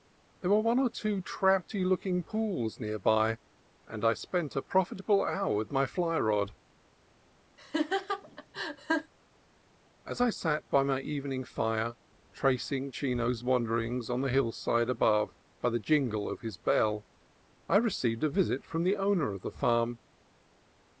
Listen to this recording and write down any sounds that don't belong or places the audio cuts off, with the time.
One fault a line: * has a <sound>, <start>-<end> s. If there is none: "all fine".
* has a laugh, 7.6-9.1 s